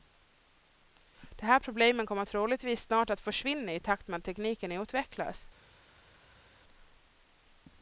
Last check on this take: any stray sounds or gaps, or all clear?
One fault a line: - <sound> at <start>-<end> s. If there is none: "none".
none